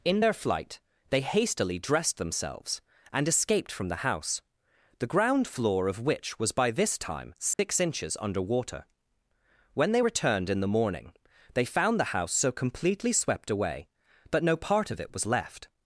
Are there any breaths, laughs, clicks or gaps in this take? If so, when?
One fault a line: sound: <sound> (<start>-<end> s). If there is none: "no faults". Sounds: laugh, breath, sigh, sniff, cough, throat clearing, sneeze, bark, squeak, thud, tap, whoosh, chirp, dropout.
sound: dropout (7.5-7.6 s)